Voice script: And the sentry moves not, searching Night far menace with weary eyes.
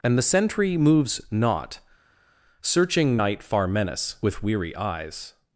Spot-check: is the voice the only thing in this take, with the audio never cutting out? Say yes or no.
yes